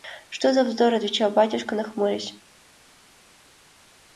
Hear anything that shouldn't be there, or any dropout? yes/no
no